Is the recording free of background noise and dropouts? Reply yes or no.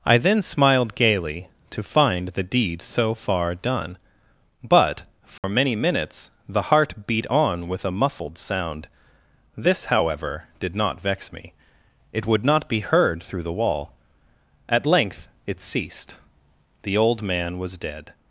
no